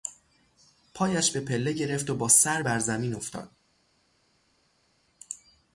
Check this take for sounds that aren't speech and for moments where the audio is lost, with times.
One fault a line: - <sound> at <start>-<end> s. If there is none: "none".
none